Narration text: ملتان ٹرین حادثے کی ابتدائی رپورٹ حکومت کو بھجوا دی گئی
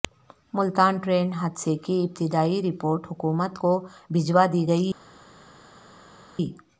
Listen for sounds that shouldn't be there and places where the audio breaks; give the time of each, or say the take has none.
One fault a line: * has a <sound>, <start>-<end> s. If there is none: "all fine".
all fine